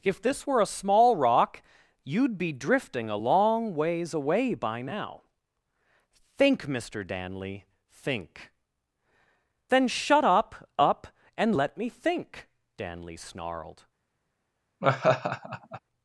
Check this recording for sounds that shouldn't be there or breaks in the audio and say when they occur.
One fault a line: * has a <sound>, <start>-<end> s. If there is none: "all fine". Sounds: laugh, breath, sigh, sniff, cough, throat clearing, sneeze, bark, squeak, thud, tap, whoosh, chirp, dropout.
* has a laugh, 14.8-15.8 s